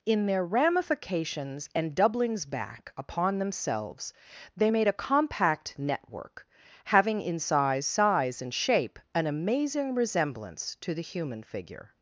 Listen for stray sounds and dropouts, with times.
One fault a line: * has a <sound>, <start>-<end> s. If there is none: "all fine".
all fine